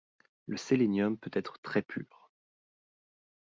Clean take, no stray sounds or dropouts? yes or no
yes